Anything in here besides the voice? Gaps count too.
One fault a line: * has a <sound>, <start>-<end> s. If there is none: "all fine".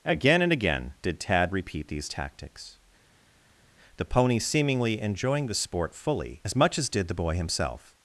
all fine